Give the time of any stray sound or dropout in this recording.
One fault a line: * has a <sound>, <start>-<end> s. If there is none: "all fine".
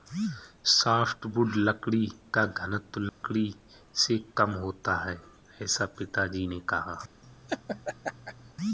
* has a dropout, 3.1-3.2 s
* has a laugh, 7.2-8.5 s